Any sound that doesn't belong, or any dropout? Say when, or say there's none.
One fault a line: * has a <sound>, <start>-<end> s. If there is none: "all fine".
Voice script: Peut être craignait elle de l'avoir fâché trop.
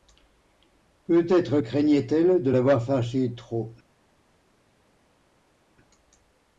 all fine